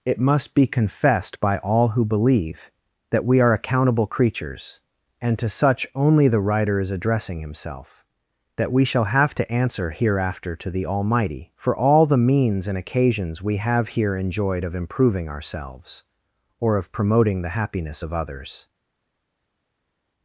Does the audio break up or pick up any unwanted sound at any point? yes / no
no